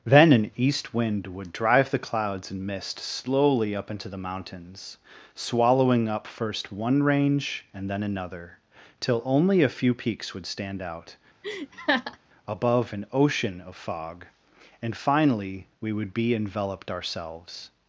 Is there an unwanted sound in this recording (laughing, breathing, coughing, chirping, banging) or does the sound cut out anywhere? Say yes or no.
yes